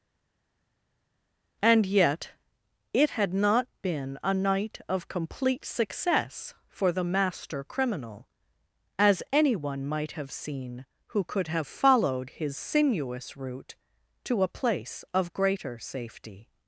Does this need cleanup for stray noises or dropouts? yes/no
no